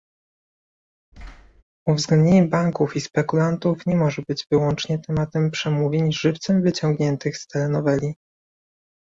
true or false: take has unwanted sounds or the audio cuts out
true